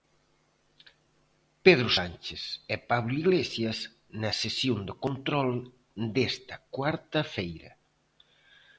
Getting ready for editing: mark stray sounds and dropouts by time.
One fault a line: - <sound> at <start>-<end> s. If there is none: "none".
none